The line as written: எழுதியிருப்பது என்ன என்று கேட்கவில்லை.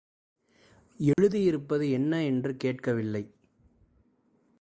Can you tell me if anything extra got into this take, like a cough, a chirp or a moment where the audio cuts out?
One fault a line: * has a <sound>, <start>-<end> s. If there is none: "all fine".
* has a dropout, 1.1-1.2 s